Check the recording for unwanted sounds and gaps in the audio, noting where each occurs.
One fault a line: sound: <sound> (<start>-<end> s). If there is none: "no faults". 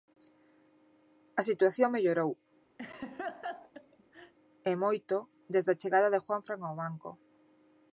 sound: laugh (2.8-4.3 s)